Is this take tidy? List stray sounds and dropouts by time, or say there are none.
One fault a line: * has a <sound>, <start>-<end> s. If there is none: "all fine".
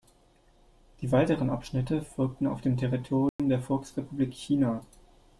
* has a dropout, 3.3-3.4 s